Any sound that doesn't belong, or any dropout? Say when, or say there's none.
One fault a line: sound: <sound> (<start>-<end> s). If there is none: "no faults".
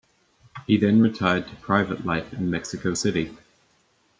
no faults